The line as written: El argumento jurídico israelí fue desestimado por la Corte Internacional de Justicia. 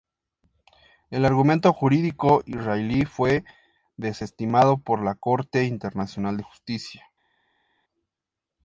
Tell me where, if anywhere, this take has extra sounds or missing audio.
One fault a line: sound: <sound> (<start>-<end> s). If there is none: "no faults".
no faults